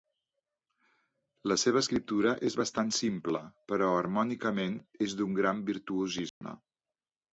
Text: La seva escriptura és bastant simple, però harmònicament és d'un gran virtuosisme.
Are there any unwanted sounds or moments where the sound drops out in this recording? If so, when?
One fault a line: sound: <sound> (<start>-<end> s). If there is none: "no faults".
sound: dropout (6.3-6.4 s)